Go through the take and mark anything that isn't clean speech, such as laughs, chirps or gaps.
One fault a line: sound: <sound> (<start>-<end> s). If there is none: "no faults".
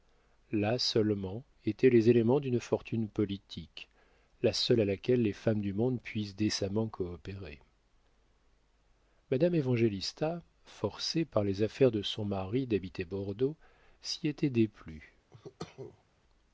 sound: cough (15.3-16.0 s)